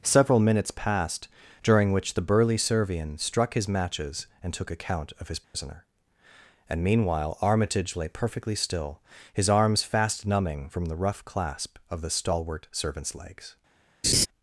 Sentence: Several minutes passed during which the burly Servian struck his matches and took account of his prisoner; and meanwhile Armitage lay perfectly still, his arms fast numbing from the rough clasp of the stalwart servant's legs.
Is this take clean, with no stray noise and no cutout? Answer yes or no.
no